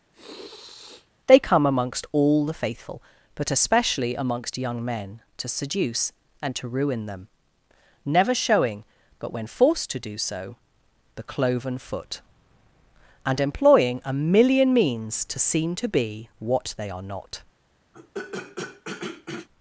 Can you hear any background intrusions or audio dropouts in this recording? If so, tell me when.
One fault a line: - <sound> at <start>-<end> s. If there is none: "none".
- sniff at 0.1-1.1 s
- throat clearing at 17.9-19.5 s